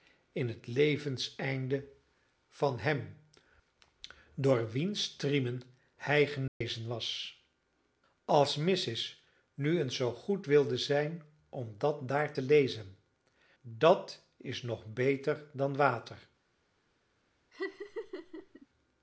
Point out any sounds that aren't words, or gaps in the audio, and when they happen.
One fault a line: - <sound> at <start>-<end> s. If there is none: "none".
- dropout at 6.5-6.6 s
- laugh at 17.5-18.7 s